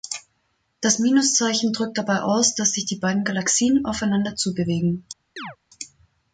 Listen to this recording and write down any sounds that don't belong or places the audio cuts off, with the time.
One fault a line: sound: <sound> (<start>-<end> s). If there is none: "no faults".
sound: chirp (5.4-5.6 s)